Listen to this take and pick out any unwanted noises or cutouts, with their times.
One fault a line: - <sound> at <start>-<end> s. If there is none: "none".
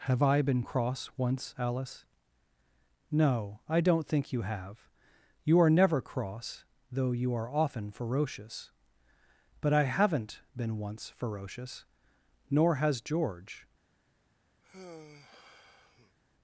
- sigh at 14.6-16.2 s